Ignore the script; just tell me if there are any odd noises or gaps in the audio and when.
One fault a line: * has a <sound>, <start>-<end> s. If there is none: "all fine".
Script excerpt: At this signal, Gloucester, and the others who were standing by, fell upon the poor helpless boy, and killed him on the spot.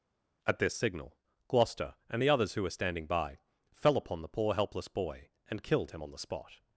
all fine